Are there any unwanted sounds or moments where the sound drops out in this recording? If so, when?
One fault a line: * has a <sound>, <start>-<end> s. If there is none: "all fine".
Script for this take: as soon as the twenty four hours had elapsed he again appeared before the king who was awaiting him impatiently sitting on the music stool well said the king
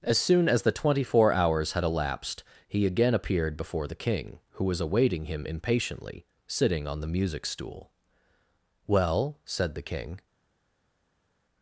all fine